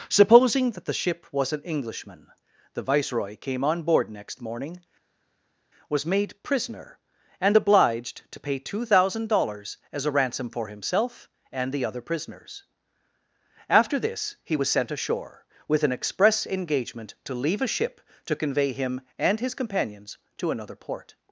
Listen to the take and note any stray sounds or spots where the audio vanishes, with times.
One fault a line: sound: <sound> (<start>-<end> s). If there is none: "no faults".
no faults